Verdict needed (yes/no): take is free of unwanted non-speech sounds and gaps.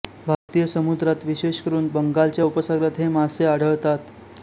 no